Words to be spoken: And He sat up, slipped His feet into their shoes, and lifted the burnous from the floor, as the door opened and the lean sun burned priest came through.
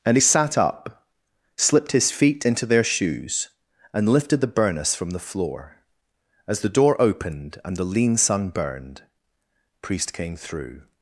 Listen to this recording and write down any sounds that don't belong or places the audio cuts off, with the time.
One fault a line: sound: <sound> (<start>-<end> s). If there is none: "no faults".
no faults